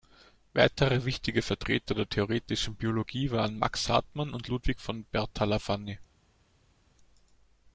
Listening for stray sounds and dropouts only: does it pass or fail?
pass